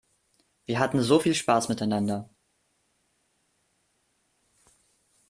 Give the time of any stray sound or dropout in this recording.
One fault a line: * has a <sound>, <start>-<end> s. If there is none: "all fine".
all fine